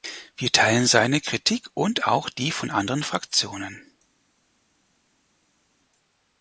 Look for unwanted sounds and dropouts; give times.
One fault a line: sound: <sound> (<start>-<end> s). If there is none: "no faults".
no faults